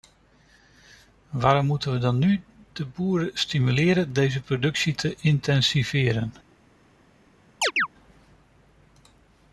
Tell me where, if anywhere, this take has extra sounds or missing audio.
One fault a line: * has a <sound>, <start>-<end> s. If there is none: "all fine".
* has a chirp, 7.6-7.9 s